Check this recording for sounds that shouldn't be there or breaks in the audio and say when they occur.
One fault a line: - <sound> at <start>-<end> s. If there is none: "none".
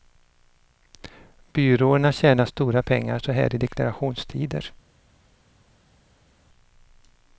none